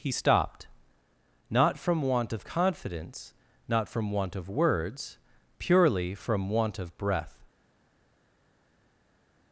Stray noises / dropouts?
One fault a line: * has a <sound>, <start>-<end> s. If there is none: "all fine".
all fine